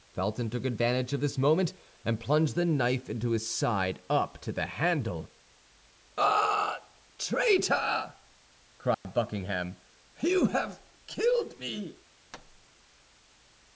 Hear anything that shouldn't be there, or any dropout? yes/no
yes